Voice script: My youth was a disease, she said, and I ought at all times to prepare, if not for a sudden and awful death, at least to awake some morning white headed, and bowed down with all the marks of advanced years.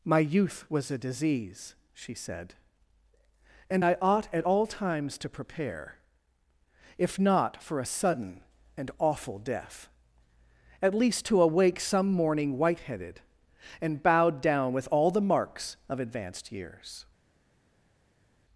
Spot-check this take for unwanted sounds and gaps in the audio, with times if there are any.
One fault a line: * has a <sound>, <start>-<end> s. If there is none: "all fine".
all fine